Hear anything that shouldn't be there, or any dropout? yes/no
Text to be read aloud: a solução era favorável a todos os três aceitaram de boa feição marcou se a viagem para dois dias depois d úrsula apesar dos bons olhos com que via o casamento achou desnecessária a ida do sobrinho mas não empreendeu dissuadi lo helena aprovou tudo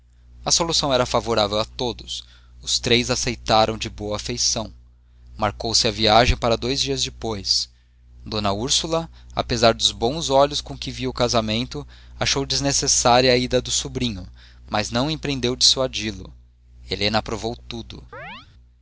yes